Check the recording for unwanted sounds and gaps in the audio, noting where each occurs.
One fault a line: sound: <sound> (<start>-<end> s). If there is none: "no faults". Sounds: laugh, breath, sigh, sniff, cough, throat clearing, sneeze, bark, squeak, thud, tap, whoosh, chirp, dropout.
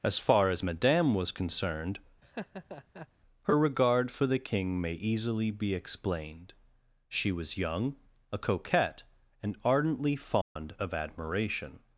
sound: laugh (2.2-3.1 s)
sound: dropout (10.4-10.6 s)